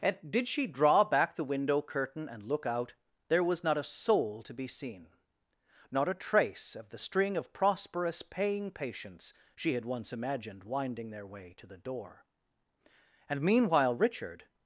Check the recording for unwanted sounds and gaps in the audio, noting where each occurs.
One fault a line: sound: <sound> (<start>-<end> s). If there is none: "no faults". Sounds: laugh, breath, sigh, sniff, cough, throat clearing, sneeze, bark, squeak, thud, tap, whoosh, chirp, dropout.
no faults